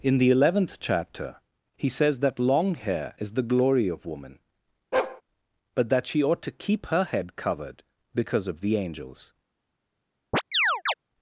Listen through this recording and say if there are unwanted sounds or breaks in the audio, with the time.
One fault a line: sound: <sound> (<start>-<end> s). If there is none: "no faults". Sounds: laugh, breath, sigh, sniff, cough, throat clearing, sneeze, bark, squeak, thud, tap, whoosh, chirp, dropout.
sound: bark (4.9-5.2 s)
sound: chirp (10.3-10.9 s)